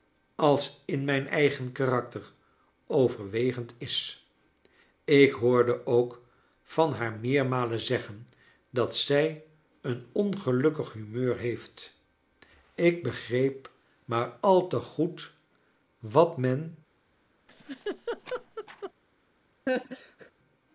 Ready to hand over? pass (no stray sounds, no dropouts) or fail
fail